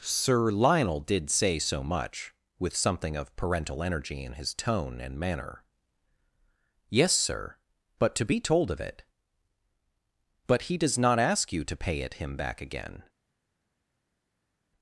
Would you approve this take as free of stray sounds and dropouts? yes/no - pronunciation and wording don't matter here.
yes